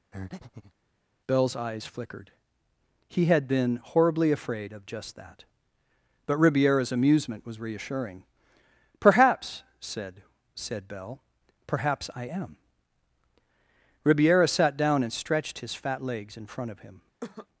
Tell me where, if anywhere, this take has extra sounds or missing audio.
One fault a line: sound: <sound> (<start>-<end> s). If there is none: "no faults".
sound: breath (0.1-0.7 s)
sound: cough (17.2-17.5 s)